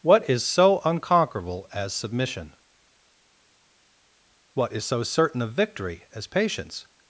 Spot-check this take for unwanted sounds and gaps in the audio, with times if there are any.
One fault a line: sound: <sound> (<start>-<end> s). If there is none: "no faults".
no faults